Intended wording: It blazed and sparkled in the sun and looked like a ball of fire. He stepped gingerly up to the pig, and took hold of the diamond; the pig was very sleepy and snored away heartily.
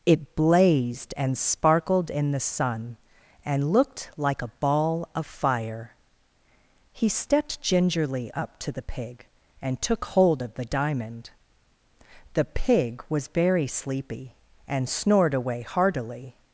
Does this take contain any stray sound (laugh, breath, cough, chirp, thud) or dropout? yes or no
no